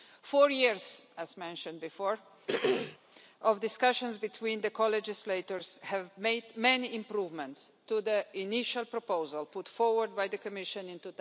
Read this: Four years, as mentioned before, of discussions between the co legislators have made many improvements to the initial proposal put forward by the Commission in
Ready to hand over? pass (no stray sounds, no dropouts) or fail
fail